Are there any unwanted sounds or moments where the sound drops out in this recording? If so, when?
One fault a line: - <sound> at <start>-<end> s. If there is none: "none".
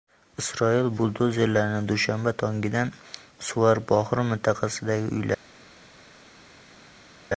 none